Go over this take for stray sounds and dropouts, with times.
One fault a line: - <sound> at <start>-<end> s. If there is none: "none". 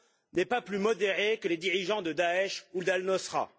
none